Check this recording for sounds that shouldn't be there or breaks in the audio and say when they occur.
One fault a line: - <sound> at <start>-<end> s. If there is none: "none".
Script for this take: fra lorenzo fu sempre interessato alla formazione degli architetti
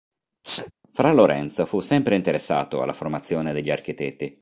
- sneeze at 0.4-0.7 s